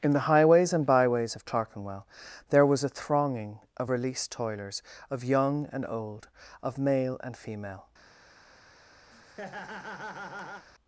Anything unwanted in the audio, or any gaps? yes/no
yes